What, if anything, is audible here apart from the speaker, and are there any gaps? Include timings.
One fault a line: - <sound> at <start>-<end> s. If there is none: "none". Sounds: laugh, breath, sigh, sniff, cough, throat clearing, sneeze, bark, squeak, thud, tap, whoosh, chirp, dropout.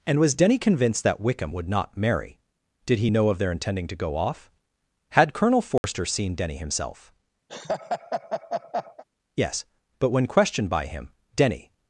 - dropout at 5.8-5.8 s
- laugh at 7.5-9.0 s